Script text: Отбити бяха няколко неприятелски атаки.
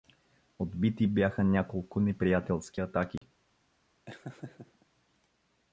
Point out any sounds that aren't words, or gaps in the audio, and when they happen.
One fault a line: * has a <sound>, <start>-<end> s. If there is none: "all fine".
* has a dropout, 3.2-3.2 s
* has a laugh, 4.1-4.9 s